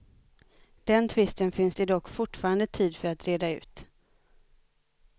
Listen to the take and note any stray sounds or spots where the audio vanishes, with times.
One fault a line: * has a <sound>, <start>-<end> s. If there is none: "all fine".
all fine